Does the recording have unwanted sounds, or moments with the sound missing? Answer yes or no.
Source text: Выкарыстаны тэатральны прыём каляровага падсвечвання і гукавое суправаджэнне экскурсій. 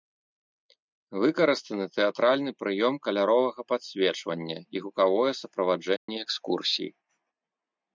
yes